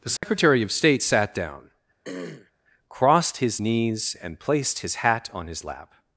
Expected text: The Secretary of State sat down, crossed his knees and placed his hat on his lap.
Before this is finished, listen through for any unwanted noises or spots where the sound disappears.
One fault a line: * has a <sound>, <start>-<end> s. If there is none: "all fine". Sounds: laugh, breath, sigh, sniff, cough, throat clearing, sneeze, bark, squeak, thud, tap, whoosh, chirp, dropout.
* has a dropout, 0.2-0.2 s
* has a throat clearing, 2.0-2.5 s